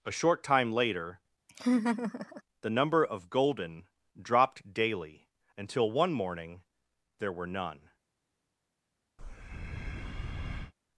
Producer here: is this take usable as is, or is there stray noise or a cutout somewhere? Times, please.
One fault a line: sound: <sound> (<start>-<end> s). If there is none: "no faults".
sound: laugh (1.5-2.4 s)
sound: breath (9.2-10.7 s)